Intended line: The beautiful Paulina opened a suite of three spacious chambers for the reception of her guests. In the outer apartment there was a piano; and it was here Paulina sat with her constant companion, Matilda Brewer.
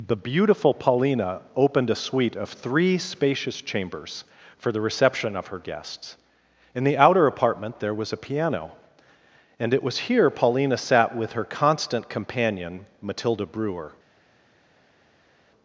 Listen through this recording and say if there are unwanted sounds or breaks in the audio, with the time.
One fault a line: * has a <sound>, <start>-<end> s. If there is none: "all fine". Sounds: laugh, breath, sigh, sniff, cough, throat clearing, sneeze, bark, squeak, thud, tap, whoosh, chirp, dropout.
all fine